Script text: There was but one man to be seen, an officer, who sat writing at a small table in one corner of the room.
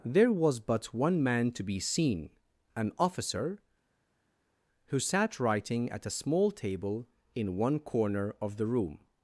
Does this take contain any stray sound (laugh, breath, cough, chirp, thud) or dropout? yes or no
no